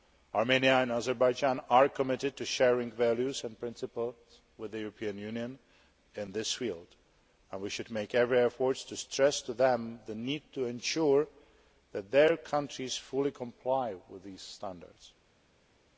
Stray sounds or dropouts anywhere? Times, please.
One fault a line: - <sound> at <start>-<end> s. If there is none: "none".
none